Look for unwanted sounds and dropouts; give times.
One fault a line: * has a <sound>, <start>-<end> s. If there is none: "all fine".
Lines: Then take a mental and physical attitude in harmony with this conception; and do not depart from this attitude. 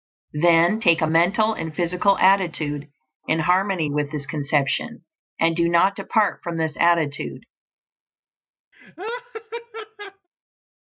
* has a laugh, 8.7-10.3 s